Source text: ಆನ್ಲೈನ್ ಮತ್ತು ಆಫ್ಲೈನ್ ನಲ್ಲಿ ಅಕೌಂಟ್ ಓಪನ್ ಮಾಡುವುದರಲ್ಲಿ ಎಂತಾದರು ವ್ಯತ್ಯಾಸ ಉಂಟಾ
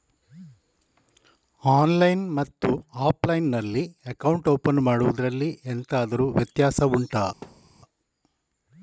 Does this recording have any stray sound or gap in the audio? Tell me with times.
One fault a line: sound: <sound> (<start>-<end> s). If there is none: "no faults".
sound: thud (7.4-7.8 s)